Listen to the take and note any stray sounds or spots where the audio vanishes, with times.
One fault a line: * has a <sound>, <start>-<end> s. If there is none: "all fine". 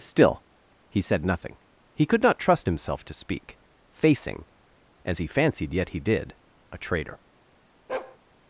* has a bark, 7.9-8.2 s